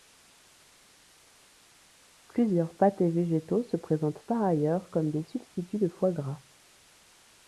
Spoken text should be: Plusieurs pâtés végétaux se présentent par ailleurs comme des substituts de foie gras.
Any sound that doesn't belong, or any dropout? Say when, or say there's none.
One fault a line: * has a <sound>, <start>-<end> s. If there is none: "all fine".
all fine